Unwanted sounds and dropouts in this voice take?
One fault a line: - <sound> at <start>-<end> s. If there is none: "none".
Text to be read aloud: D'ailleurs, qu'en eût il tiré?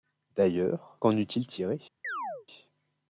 - chirp at 2.0-2.5 s